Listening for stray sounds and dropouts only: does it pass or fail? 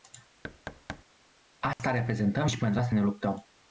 fail